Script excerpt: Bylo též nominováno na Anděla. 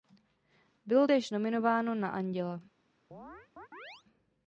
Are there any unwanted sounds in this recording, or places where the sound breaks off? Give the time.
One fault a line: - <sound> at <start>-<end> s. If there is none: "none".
- chirp at 3.1-4.0 s